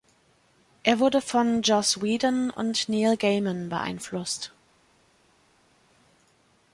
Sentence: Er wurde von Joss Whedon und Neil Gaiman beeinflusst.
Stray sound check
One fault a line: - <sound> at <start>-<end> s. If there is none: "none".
none